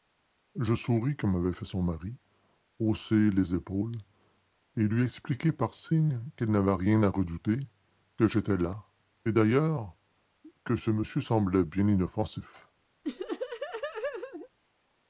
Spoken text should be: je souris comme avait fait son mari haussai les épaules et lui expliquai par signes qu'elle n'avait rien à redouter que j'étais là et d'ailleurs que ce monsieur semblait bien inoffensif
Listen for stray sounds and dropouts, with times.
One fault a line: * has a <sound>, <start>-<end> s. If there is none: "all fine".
* has a laugh, 13.0-14.5 s